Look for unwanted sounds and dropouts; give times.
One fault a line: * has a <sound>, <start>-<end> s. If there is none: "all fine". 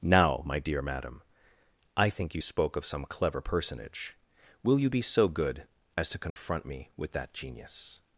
* has a dropout, 6.3-6.4 s